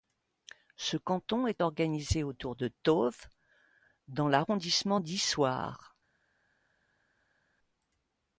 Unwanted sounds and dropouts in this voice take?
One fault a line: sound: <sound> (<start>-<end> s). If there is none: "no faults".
no faults